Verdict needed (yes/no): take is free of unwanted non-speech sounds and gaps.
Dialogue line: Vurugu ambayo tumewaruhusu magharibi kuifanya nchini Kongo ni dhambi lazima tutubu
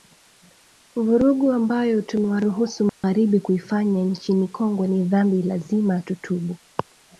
no